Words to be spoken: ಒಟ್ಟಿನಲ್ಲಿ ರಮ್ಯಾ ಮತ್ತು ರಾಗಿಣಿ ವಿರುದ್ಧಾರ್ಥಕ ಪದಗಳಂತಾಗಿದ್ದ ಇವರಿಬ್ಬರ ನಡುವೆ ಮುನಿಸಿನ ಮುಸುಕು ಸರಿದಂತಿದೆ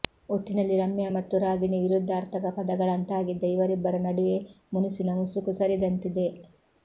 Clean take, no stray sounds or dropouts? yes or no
yes